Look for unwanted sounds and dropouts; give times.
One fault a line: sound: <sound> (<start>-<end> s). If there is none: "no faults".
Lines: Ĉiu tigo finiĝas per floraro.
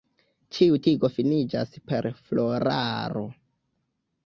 no faults